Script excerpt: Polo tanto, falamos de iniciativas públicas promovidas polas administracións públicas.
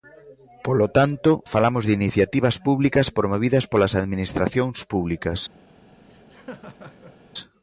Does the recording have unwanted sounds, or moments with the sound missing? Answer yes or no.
yes